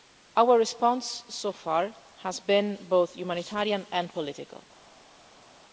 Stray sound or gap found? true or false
false